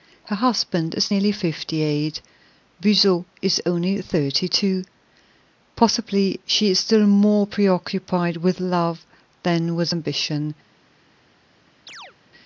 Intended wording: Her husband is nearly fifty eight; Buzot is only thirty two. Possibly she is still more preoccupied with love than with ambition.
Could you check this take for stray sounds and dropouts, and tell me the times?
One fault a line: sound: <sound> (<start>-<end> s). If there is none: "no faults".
sound: chirp (11.9-12.2 s)